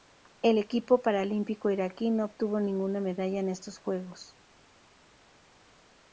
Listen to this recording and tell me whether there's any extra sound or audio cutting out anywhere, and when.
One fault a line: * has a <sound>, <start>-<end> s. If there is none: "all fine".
all fine